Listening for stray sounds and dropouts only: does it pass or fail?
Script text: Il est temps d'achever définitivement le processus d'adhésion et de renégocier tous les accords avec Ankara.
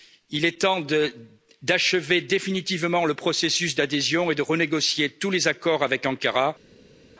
pass